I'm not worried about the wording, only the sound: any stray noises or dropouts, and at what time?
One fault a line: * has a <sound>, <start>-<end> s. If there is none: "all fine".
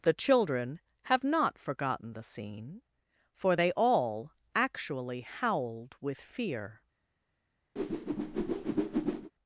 * has a whoosh, 7.8-9.3 s